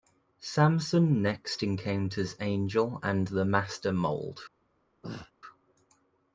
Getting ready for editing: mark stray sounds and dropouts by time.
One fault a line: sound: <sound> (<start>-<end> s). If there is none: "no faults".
sound: throat clearing (5.0-5.3 s)